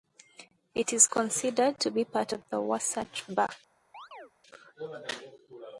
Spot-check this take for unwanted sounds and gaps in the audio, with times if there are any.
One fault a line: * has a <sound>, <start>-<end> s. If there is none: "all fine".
* has a chirp, 3.9-4.3 s